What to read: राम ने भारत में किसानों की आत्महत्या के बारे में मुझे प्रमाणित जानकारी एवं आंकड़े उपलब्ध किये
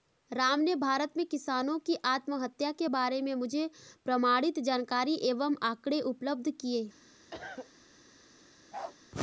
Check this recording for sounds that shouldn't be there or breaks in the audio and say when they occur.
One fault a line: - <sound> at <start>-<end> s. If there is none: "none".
- cough at 7.3-7.7 s
- bark at 8.7-9.0 s